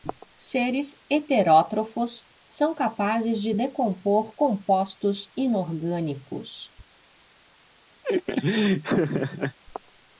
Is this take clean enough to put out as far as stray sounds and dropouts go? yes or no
no